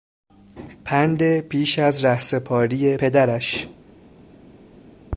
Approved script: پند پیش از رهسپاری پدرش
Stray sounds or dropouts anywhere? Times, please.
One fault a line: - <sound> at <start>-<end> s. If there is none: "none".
none